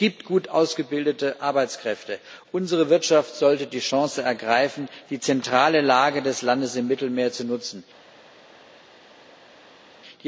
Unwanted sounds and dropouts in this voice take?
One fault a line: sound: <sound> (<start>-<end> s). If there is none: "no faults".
no faults